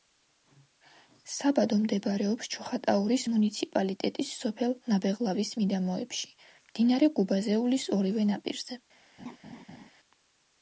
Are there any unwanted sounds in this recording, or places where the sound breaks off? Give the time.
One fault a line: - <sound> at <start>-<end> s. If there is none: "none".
- laugh at 9.2-9.9 s